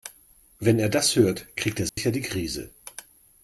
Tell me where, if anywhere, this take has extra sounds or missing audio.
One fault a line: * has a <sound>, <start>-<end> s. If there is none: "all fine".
* has a dropout, 1.9-2.0 s